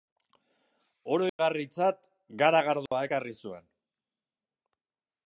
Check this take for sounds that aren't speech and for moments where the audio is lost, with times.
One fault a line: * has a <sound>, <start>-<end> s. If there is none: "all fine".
* has a dropout, 1.3-1.4 s
* has a dropout, 2.9-2.9 s